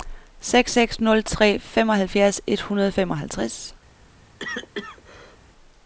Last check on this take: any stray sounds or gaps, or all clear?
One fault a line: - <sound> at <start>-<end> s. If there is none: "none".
- cough at 4.4-5.4 s